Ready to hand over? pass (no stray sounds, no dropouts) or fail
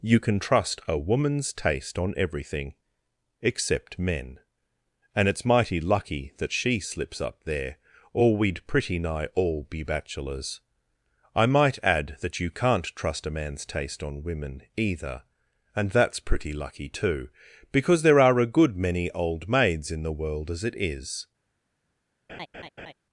fail